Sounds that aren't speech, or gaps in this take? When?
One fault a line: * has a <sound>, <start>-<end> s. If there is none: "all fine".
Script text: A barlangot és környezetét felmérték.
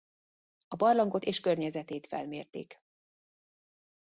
all fine